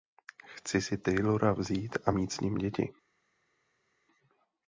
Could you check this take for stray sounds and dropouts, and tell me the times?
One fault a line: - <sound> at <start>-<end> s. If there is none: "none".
none